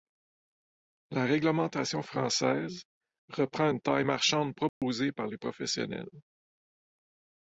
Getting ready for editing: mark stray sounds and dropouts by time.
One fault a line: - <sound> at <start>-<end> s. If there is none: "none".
- dropout at 4.7-4.8 s